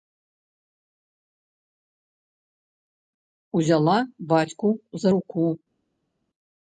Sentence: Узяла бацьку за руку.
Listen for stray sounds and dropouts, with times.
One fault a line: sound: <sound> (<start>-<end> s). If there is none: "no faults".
no faults